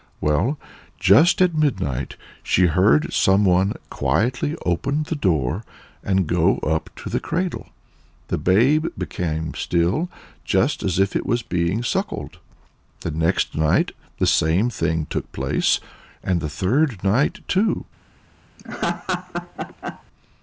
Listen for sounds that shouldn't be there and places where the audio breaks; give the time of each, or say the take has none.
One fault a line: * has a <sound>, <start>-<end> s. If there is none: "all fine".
* has a laugh, 18.6-20.0 s